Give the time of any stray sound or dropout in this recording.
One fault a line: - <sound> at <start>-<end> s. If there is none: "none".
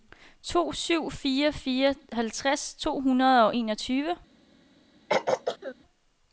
- throat clearing at 5.1-5.8 s